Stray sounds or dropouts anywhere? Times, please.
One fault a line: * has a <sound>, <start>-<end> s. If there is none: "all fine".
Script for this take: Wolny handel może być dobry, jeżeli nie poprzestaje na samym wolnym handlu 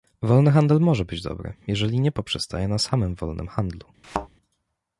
* has a thud, 4.0-4.3 s